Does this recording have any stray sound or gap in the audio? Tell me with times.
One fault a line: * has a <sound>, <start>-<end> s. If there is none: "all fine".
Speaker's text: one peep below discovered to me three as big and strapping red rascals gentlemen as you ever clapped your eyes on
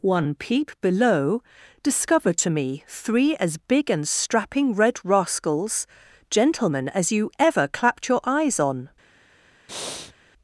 * has a breath, 9.7-10.1 s